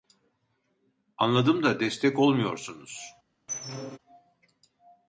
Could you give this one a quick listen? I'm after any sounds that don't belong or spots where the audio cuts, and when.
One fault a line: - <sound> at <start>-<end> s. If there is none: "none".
- squeak at 3.5-4.0 s